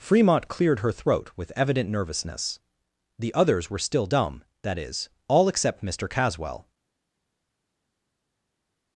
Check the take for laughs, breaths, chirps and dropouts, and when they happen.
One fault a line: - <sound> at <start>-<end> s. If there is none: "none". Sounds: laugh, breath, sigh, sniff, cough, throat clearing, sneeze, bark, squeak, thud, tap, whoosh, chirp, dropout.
none